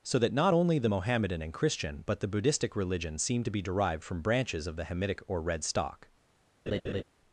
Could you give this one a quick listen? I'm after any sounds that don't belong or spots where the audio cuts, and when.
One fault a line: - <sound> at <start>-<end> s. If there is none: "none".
- laugh at 6.7-7.0 s